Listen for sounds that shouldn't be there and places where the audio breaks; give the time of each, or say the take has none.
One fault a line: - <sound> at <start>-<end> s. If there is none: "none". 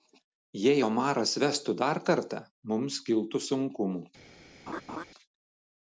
- laugh at 4.7-5.0 s